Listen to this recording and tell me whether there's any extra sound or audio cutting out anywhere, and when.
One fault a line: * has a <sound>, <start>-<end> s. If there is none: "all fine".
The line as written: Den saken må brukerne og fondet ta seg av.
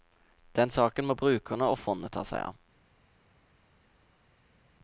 all fine